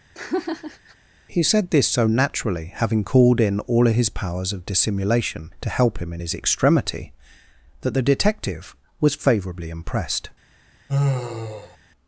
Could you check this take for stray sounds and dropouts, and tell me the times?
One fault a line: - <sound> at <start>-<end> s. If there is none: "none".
- laugh at 0.1-1.0 s
- sigh at 10.9-11.8 s